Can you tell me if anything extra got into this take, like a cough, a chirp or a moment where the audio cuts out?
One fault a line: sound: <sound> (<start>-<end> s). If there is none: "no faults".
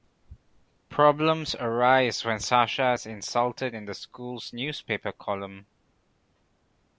no faults